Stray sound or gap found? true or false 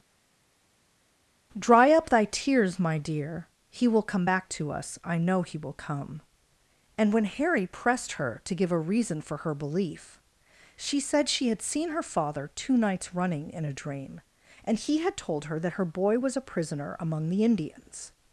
false